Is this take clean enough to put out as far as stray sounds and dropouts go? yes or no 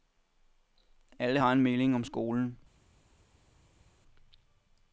yes